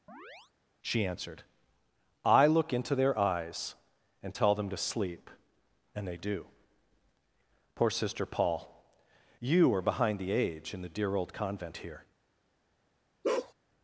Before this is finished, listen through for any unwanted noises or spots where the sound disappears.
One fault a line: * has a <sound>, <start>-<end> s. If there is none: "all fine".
* has a chirp, 0.1-0.5 s
* has a bark, 13.2-13.5 s